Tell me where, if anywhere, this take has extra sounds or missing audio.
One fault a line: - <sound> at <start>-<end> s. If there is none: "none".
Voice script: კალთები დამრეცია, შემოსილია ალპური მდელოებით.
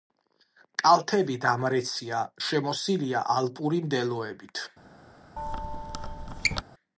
- squeak at 5.4-6.6 s